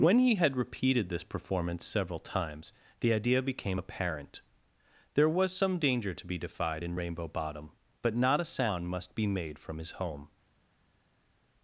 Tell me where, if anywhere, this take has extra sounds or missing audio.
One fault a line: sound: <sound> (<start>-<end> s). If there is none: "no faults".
no faults